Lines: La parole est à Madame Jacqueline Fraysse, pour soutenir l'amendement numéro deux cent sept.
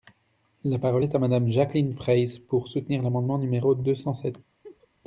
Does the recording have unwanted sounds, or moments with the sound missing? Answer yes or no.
yes